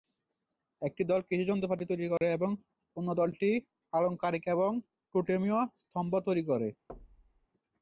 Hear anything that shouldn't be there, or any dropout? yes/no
yes